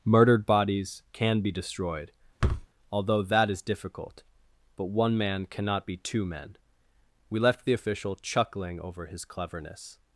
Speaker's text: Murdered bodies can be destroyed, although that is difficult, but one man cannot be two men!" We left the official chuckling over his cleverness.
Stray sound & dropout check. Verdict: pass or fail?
fail